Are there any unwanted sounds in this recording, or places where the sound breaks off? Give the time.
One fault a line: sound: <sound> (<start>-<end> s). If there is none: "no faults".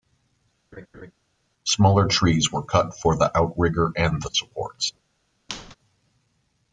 sound: laugh (0.7-1.1 s)
sound: squeak (5.5-5.8 s)